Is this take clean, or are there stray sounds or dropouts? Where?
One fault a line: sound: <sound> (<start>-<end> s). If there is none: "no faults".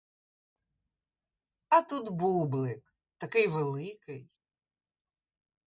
no faults